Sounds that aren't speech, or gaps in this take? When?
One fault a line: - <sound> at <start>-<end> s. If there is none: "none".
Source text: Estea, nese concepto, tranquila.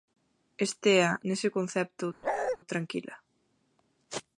- bark at 2.2-2.6 s